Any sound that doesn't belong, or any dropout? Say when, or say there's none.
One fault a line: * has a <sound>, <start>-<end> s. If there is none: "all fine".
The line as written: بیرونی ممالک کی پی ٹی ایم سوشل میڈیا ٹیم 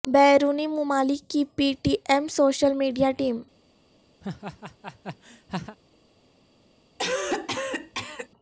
* has a laugh, 4.2-5.8 s
* has a cough, 7.0-8.3 s